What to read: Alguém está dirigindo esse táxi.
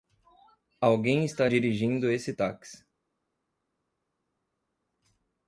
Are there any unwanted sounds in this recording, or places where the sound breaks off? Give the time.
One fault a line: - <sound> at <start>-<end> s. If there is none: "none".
none